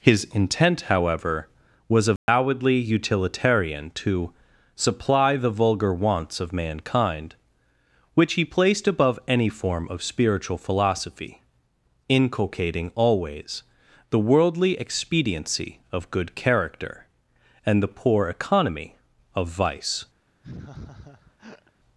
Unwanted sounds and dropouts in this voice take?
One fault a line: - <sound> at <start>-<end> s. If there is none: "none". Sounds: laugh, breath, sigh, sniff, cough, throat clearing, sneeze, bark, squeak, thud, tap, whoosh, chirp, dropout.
- dropout at 2.2-2.3 s
- laugh at 20.4-21.7 s